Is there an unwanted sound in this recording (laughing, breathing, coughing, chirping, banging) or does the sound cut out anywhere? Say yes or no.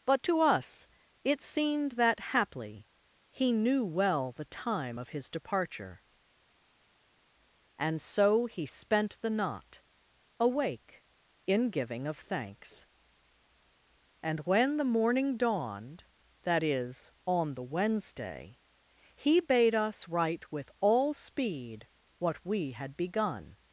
no